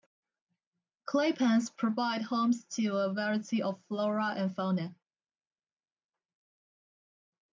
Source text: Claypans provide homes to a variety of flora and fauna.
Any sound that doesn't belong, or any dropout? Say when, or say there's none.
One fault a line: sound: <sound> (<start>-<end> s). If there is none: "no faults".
no faults